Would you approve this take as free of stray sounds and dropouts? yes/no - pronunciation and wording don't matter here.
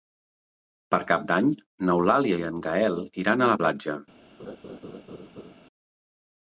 no